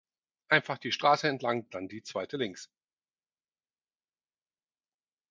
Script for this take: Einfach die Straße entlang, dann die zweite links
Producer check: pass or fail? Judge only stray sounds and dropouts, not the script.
pass